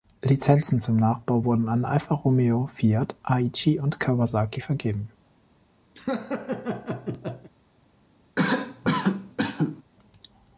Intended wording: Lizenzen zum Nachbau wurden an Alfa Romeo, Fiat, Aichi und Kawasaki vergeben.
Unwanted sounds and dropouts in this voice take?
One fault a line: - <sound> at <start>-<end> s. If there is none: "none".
- laugh at 6.0-7.5 s
- cough at 8.4-9.8 s